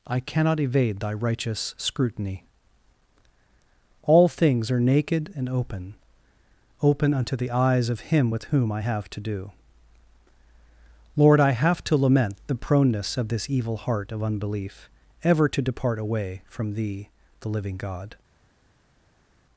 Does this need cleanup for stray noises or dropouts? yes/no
no